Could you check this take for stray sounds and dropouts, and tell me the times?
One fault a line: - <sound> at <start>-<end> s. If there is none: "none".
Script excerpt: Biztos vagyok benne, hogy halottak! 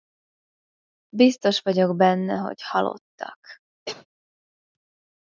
- cough at 3.9-4.1 s